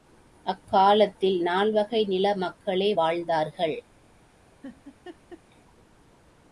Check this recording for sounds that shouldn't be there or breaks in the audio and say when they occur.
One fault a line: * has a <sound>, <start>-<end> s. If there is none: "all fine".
* has a laugh, 4.6-5.4 s